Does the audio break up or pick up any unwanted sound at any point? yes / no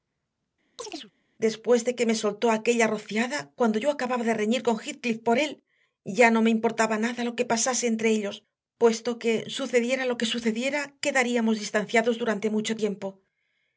yes